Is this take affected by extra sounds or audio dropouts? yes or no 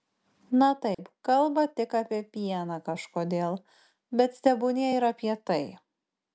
yes